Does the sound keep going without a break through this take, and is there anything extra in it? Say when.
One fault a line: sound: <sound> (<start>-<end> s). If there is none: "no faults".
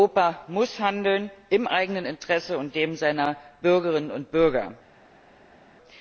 no faults